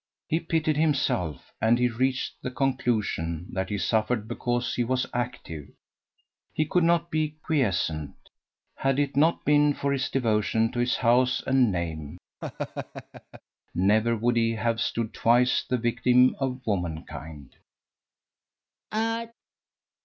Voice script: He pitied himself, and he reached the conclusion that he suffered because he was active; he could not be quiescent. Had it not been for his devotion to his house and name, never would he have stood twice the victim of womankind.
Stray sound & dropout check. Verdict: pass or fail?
fail